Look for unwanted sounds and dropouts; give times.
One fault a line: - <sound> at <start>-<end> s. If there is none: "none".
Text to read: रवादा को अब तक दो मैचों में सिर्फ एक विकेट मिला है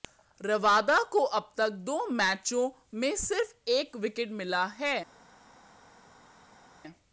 none